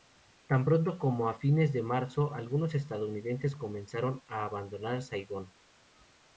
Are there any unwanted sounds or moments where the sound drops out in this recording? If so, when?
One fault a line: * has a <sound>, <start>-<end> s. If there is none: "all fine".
all fine